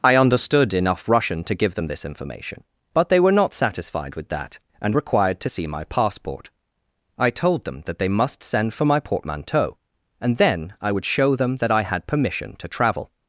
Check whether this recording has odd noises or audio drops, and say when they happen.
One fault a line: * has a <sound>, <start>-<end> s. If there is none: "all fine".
all fine